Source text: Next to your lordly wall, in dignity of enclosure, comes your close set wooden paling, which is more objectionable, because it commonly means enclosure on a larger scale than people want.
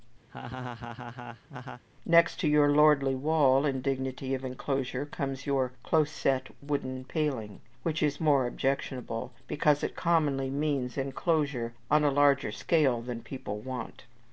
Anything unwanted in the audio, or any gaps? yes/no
yes